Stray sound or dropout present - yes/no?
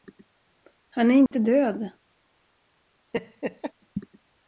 yes